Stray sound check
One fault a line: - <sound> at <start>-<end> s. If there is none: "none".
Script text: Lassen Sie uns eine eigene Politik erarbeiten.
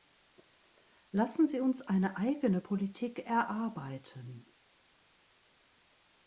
none